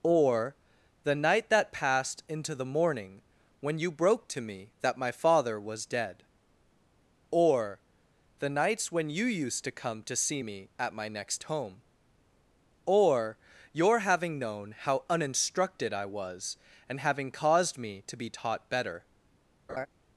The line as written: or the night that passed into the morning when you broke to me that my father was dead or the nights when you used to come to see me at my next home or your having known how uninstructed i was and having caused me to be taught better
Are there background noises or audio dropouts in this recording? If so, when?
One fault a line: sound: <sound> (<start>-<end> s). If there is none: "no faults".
sound: laugh (19.7-19.9 s)